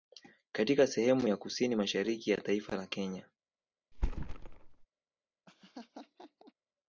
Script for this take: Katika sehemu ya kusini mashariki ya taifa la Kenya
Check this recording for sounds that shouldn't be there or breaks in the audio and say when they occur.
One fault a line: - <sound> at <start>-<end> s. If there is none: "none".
- thud at 3.9-4.9 s
- laugh at 5.5-6.5 s